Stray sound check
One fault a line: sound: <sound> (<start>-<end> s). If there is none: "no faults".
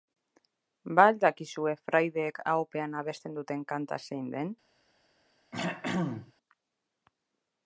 sound: throat clearing (5.5-6.3 s)